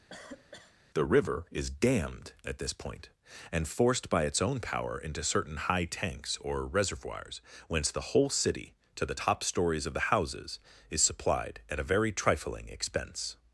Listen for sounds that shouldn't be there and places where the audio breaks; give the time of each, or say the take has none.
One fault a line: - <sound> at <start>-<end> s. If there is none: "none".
- cough at 0.1-0.8 s